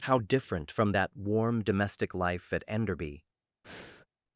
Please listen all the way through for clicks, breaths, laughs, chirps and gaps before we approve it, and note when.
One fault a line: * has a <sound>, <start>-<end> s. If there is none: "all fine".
* has a breath, 3.6-4.1 s